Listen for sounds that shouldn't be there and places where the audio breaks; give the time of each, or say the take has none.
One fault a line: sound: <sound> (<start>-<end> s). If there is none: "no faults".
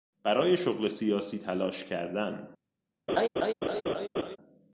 sound: laugh (3.1-4.4 s)